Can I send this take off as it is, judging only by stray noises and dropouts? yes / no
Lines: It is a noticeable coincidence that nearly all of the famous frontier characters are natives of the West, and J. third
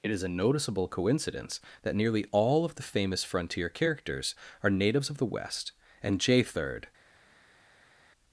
yes